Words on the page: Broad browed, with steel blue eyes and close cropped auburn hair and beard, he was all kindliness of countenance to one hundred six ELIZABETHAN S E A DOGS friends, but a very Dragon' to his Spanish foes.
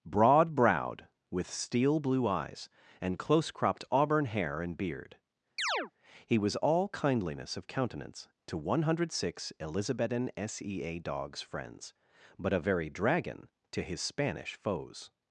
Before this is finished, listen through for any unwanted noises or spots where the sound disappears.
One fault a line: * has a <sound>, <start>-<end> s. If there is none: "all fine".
* has a chirp, 5.6-5.9 s